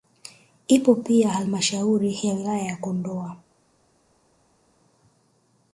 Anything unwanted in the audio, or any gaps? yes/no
no